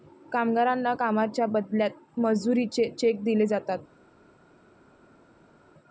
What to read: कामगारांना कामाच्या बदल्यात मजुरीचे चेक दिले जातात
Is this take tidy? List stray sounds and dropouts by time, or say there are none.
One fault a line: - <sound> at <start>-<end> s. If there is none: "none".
none